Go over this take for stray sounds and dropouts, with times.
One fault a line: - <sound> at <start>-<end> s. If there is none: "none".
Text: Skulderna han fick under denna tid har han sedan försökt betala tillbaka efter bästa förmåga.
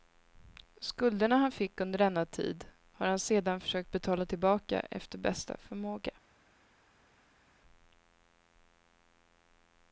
none